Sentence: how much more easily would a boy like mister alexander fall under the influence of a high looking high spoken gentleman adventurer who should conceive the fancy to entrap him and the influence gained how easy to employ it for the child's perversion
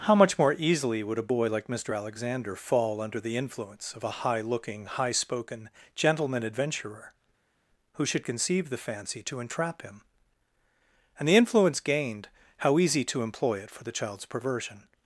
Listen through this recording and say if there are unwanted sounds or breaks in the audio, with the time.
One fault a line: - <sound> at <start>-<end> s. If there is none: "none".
none